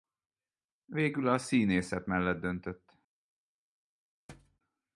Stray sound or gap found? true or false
true